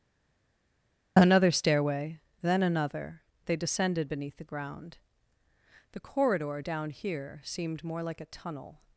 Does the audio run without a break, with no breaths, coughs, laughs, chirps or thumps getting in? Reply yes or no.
yes